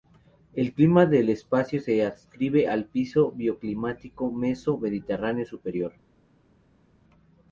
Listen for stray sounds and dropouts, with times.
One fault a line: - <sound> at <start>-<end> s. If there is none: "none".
none